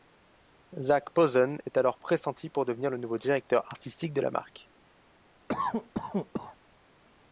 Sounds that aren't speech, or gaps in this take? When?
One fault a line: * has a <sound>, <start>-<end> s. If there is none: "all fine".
* has a cough, 5.5-6.6 s